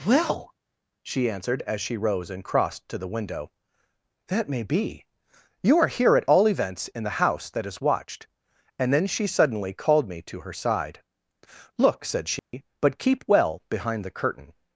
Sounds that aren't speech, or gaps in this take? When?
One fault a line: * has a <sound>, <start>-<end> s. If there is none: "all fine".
* has a dropout, 12.4-12.5 s